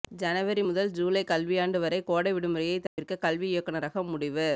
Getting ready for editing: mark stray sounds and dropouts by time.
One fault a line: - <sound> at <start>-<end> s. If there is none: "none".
- dropout at 2.9-3.0 s